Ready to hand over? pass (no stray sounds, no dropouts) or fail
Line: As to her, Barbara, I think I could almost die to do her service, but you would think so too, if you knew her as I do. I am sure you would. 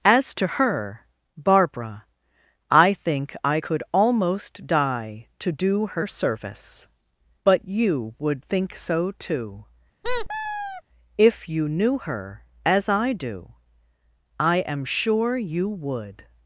fail